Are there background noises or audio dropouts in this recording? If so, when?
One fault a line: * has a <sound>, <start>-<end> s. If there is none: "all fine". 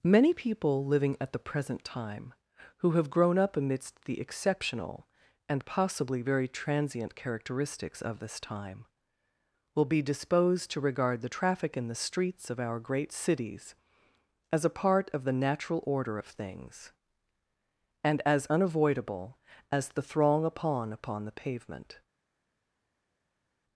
all fine